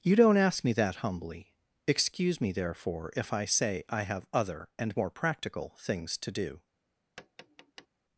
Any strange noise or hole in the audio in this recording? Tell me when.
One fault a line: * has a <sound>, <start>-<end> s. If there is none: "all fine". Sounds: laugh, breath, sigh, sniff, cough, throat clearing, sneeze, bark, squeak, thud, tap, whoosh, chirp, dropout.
* has a tap, 7.2-7.9 s